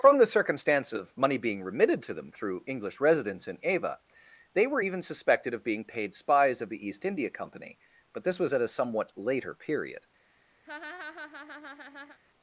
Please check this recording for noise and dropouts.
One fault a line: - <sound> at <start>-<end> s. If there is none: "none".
- laugh at 10.6-12.2 s